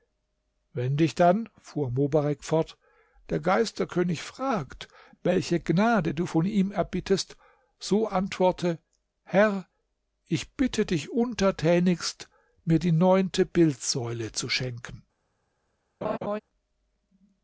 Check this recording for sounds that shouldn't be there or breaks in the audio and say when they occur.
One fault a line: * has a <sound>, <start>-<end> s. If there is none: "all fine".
* has a laugh, 16.0-16.4 s